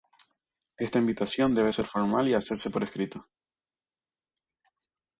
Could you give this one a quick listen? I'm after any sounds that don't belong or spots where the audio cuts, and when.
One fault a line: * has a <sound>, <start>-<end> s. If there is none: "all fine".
all fine